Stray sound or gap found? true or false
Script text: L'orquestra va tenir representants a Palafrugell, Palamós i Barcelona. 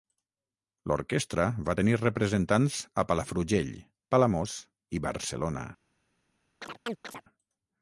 true